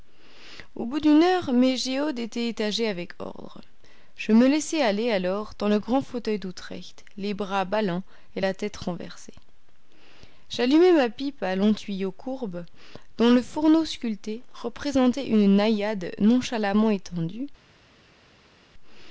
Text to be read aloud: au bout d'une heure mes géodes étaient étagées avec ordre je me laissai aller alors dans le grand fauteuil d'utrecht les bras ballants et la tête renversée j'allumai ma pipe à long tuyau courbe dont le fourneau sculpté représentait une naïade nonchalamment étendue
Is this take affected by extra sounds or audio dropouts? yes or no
no